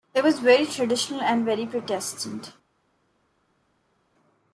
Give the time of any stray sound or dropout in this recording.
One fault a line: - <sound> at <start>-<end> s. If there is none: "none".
none